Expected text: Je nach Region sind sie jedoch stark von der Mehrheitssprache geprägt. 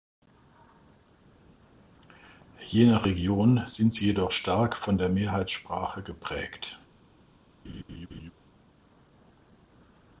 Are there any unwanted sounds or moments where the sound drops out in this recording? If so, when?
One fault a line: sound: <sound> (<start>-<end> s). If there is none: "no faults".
sound: laugh (7.6-8.3 s)